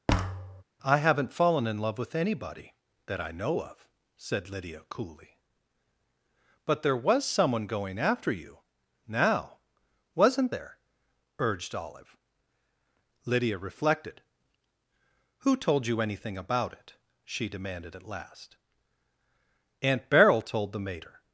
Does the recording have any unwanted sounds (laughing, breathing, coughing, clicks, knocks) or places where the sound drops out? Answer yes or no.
yes